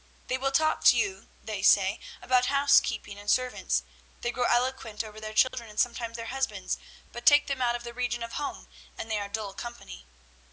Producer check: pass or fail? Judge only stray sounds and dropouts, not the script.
fail